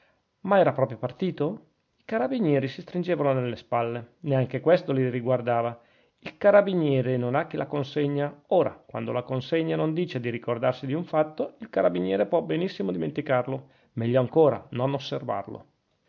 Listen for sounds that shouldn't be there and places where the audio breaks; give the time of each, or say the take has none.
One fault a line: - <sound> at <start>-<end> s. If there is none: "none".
none